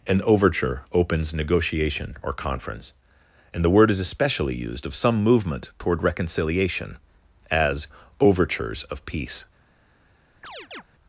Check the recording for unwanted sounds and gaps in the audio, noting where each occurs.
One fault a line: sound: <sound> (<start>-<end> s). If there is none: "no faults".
sound: chirp (10.4-10.8 s)